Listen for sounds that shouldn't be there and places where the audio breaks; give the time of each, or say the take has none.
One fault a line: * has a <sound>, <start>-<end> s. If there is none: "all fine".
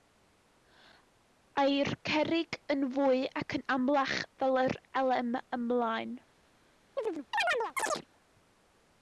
* has a chirp, 7.0-8.1 s